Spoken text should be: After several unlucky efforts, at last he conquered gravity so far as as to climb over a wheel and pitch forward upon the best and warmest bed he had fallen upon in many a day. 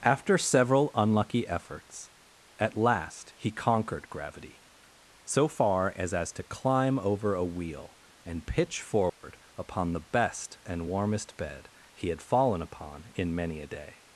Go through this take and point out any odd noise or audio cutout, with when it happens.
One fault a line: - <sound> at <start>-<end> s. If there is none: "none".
- dropout at 9.1-9.2 s